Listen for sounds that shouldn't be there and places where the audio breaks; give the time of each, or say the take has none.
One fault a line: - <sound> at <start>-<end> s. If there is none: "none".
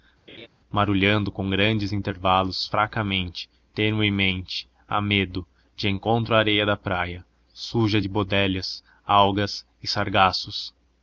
- laugh at 0.3-0.5 s